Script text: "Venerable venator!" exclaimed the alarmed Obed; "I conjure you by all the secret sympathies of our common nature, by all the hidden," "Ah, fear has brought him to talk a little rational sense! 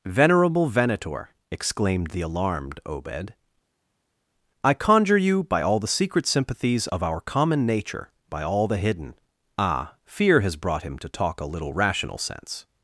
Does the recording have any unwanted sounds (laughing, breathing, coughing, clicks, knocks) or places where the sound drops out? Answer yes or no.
no